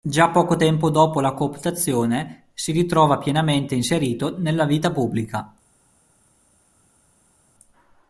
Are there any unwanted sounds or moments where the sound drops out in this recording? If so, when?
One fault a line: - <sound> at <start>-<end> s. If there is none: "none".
none